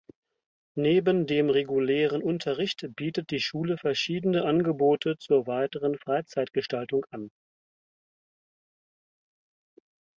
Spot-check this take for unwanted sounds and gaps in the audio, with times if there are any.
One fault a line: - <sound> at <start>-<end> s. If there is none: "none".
none